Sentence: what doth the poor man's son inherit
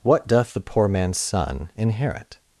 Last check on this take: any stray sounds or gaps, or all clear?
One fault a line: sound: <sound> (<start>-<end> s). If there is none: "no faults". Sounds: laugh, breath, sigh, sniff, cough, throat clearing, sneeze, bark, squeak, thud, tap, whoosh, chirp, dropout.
no faults